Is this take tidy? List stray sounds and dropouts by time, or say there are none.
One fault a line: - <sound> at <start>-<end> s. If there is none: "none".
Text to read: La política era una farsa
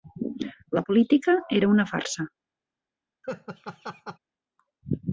- laugh at 3.2-4.2 s